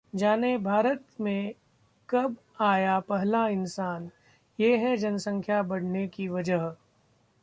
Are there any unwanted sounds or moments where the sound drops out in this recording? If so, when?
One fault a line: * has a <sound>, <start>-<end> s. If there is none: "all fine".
all fine